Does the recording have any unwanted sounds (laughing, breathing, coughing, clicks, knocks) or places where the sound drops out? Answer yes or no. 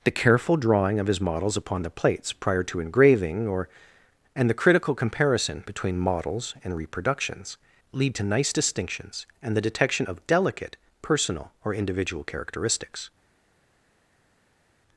no